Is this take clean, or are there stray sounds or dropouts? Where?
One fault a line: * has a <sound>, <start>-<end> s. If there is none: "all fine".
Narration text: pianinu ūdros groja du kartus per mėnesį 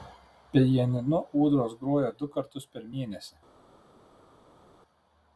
all fine